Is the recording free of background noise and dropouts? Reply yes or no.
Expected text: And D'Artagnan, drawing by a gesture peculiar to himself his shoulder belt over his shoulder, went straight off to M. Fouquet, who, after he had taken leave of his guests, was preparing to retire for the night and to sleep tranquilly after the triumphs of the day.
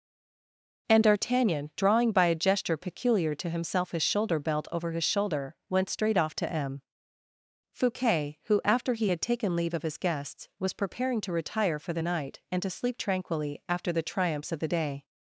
yes